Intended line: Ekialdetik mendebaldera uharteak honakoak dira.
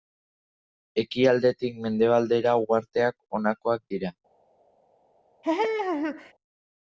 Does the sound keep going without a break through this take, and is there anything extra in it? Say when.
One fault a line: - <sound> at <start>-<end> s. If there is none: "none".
- laugh at 5.4-6.3 s